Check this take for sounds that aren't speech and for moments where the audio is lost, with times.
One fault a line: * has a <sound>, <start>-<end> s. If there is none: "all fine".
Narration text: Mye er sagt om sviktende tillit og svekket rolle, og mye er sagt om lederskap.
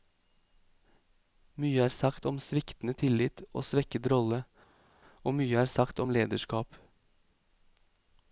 all fine